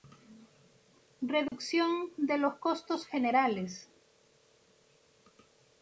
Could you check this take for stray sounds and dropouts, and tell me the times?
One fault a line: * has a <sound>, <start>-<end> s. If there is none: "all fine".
* has a dropout, 1.5-1.5 s